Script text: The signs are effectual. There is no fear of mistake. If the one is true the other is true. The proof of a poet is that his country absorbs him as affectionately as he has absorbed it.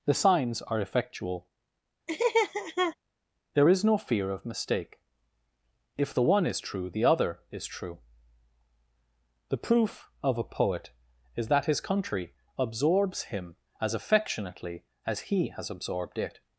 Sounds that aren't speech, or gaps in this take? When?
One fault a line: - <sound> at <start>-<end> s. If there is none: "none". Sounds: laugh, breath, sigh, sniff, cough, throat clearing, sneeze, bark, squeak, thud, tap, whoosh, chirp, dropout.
- laugh at 2.1-3.0 s